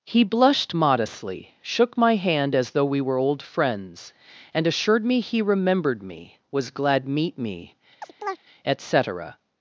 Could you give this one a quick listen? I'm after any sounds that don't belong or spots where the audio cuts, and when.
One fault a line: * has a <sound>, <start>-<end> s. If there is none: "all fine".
* has a chirp, 8.0-8.4 s